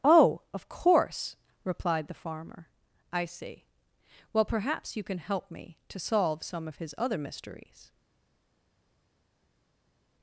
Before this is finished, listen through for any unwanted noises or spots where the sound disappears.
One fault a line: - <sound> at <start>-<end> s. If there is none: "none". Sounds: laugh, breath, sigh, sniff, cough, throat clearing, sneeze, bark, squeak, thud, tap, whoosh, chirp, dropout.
none